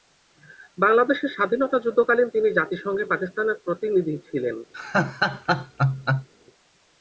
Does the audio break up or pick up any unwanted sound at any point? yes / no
yes